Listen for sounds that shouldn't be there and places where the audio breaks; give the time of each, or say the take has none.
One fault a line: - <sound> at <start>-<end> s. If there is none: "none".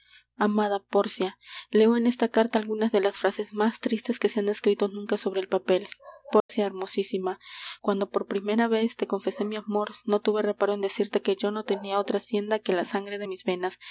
- dropout at 6.4-6.5 s